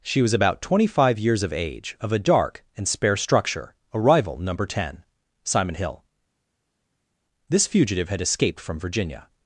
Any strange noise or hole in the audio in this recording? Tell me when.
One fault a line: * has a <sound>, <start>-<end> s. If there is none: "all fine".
all fine